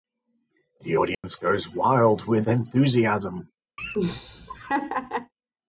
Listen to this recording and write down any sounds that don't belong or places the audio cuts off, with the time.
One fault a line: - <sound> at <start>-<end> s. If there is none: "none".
- dropout at 1.1-1.2 s
- laugh at 3.8-5.3 s